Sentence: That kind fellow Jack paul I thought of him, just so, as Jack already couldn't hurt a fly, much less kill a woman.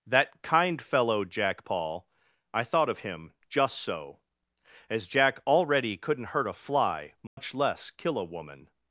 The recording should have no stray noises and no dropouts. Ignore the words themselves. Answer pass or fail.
fail